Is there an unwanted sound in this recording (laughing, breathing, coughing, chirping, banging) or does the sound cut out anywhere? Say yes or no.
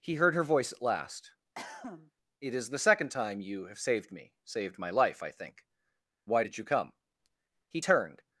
yes